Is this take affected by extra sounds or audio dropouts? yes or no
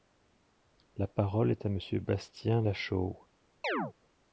yes